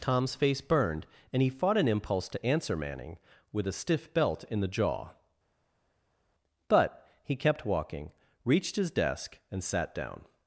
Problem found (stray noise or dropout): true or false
false